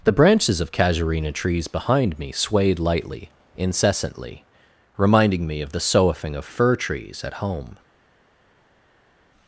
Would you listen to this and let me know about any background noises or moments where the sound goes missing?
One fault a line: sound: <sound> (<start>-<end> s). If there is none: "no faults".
no faults